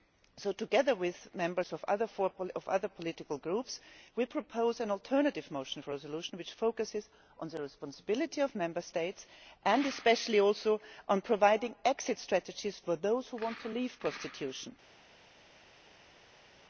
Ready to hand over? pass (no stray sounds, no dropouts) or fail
pass